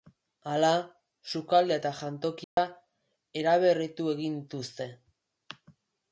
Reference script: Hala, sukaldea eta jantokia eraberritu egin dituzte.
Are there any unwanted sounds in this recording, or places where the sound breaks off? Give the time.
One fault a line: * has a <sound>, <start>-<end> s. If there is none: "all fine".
* has a dropout, 2.4-2.6 s